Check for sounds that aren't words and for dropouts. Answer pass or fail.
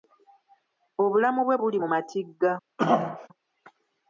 fail